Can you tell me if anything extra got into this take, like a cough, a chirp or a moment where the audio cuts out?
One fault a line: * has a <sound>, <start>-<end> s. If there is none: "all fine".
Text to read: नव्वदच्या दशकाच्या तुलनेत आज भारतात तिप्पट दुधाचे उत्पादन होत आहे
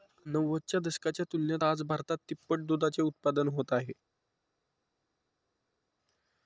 all fine